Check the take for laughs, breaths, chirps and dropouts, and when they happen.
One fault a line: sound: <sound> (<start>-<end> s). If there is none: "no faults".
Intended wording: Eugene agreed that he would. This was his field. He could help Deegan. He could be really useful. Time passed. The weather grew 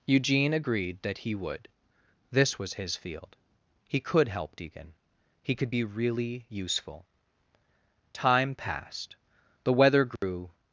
sound: dropout (10.2-10.2 s)